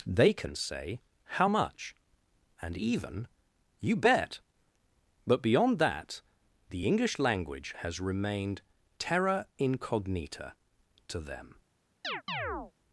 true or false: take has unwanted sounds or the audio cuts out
true